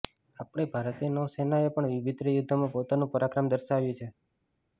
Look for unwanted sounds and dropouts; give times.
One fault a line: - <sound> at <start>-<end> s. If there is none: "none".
none